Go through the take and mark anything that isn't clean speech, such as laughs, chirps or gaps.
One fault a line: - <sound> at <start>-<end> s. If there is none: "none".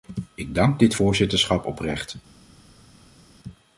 none